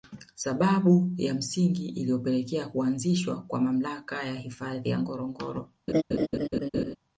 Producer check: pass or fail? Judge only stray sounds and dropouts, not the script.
fail